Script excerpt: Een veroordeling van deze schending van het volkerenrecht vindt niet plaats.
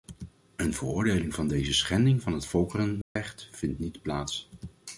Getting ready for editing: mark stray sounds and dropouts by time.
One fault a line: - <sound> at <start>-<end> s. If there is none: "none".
- dropout at 3.0-3.2 s